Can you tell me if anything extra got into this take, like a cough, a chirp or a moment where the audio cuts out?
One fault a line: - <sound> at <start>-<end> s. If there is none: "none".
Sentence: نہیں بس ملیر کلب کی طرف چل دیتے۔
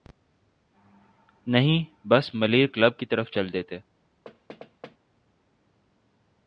- thud at 4.2-5.0 s